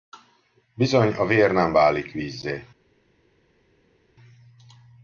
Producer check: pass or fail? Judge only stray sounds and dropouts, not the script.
pass